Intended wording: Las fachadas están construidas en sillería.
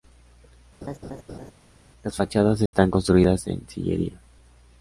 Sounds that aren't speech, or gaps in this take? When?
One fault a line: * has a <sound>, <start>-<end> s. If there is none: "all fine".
* has a laugh, 0.8-1.5 s
* has a dropout, 2.7-2.7 s